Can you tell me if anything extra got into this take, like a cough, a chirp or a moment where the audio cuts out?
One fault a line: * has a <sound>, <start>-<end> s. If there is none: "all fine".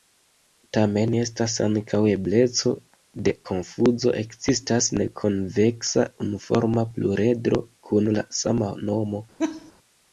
* has a laugh, 9.4-9.7 s